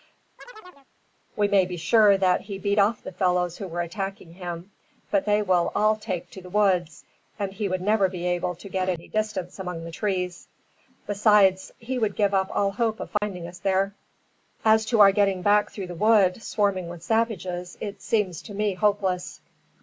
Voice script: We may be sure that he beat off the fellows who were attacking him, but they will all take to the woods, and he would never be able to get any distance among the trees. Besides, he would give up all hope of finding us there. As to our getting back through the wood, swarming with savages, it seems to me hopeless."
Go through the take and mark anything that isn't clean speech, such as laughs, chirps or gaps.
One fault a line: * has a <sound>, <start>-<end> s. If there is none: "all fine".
* has a chirp, 0.4-0.9 s
* has a dropout, 13.2-13.2 s